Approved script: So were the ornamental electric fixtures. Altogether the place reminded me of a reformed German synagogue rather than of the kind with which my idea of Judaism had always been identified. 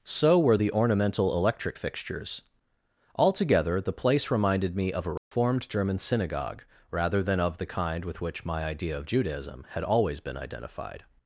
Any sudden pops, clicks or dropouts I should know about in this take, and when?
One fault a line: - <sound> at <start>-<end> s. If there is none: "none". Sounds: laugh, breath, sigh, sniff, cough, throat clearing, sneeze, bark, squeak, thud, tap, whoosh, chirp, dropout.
- dropout at 5.2-5.3 s